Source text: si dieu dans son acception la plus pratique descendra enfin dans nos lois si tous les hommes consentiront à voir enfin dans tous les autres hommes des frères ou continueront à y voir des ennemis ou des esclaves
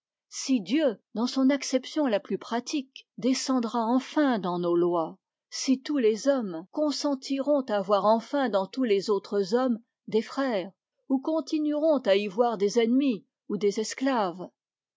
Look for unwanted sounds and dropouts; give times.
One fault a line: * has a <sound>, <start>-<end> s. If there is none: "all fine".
all fine